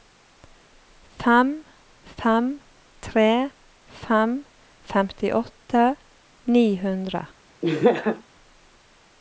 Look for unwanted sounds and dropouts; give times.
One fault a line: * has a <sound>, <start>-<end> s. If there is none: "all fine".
* has a laugh, 7.6-8.2 s